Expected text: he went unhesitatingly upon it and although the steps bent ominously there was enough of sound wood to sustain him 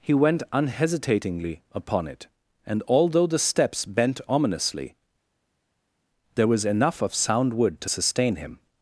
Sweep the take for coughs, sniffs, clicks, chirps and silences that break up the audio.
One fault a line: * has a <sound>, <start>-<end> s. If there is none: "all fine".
all fine